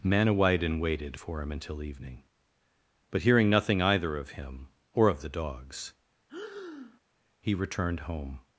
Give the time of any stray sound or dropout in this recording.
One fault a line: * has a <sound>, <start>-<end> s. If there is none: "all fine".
* has a breath, 6.3-7.0 s